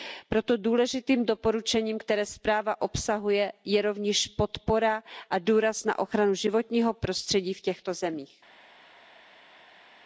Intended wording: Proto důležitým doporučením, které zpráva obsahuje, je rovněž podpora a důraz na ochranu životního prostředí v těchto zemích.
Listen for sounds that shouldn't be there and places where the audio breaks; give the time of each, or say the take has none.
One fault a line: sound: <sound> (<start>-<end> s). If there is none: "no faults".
no faults